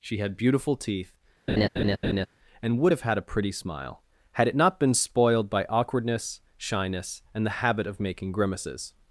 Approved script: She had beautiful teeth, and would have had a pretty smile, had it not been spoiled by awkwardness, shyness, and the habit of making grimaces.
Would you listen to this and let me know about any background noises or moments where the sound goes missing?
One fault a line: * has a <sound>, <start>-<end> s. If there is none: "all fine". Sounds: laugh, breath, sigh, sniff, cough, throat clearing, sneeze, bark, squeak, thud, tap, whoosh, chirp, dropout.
* has a laugh, 1.5-2.3 s